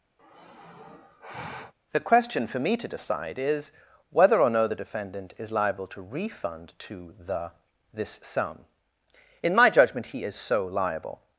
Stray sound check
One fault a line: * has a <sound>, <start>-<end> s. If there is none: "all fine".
* has a sigh, 0.2-1.7 s